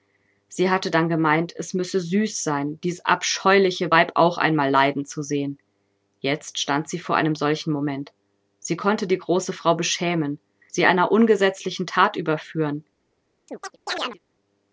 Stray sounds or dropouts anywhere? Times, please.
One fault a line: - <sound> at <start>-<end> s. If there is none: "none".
- chirp at 13.5-14.2 s